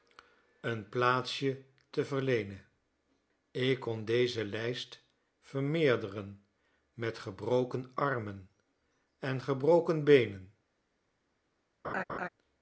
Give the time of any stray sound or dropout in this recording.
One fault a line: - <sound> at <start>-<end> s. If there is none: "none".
- laugh at 11.8-12.3 s